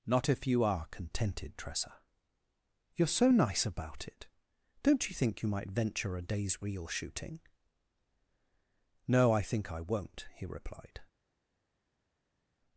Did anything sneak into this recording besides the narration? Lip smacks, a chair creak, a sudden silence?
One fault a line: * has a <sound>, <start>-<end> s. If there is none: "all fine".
all fine